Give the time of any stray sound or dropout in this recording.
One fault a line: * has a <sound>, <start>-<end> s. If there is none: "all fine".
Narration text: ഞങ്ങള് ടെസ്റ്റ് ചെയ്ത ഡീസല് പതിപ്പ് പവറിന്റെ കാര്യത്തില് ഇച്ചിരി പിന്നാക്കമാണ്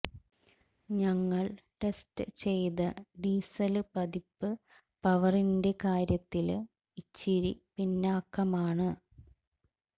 all fine